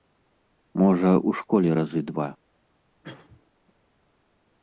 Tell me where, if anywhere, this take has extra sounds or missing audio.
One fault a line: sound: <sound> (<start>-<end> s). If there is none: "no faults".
sound: cough (3.0-3.5 s)